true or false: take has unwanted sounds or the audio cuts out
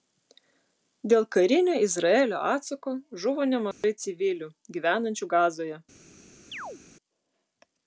true